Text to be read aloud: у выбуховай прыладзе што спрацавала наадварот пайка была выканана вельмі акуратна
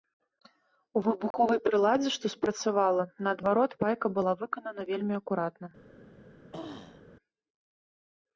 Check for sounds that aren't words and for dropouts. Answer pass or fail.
fail